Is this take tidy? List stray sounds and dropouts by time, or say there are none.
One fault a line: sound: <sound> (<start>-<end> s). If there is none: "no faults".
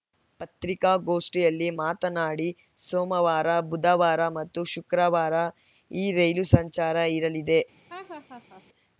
sound: laugh (7.9-8.6 s)